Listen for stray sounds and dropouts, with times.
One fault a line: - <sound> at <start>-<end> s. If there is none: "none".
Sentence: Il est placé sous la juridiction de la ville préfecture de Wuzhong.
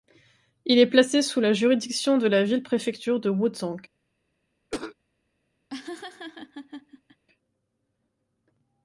- cough at 4.7-5.0 s
- laugh at 5.7-7.2 s